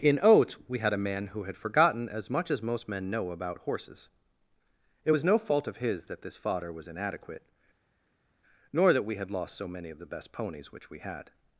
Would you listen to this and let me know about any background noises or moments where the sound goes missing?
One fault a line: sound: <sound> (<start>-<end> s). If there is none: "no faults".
no faults